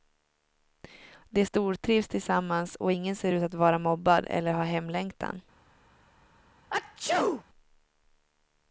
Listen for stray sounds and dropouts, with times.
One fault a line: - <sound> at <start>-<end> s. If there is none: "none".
- sneeze at 6.7-7.4 s